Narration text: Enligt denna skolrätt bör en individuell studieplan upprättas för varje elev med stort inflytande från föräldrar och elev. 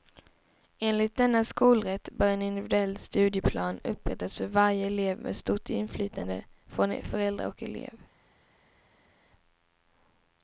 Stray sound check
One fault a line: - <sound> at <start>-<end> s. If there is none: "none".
none